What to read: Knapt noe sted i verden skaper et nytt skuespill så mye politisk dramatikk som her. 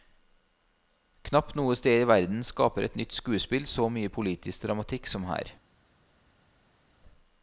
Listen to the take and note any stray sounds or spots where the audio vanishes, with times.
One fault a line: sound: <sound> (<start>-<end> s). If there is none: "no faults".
no faults